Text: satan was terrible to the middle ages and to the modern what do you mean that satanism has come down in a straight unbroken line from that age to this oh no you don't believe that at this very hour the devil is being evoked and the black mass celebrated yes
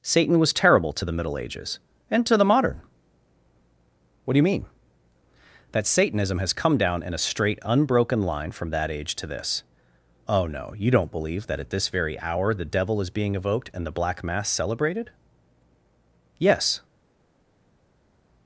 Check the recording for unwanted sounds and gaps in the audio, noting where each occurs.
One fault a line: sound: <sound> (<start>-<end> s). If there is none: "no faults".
no faults